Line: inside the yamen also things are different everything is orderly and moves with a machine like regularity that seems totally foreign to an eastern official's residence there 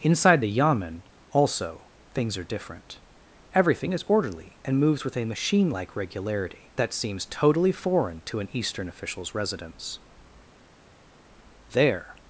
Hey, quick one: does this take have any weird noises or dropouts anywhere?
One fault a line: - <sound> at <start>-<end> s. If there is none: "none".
none